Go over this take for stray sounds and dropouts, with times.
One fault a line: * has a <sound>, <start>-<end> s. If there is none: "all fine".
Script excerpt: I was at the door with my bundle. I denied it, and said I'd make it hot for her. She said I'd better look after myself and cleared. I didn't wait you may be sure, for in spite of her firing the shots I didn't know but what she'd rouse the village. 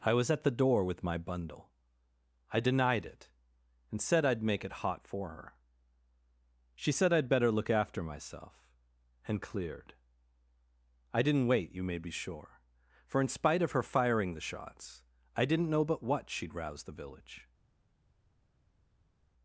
all fine